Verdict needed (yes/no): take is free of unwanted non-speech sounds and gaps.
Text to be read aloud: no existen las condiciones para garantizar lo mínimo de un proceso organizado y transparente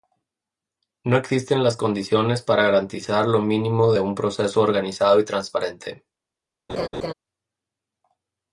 no